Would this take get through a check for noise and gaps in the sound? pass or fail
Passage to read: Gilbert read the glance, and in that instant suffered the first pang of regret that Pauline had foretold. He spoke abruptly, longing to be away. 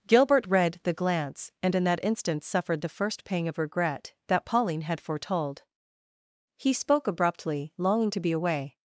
pass